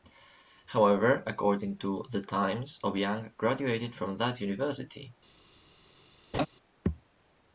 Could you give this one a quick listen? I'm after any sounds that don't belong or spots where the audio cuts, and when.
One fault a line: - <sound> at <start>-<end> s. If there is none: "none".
- laugh at 6.3-6.5 s